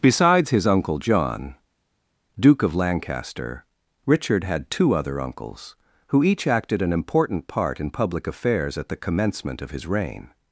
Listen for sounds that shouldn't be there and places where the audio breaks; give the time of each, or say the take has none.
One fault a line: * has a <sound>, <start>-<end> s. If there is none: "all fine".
all fine